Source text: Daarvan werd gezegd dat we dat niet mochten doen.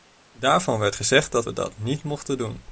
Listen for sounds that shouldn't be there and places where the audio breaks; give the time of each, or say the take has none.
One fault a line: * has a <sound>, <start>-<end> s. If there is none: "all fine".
all fine